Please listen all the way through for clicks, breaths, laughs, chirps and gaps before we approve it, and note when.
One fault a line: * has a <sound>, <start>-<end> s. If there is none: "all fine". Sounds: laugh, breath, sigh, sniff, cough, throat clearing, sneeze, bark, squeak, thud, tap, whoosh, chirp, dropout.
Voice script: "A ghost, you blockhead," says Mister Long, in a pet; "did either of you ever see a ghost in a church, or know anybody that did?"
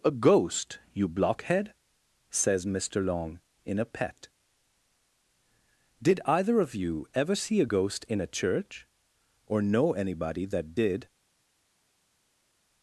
all fine